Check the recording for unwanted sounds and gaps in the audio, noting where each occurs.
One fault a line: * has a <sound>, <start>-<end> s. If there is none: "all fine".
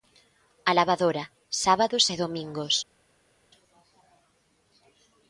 all fine